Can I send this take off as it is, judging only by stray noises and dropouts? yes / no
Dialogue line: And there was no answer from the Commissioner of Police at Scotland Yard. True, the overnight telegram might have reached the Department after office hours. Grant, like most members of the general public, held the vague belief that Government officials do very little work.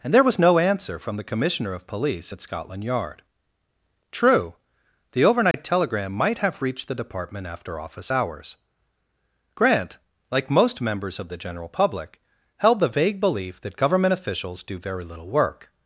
no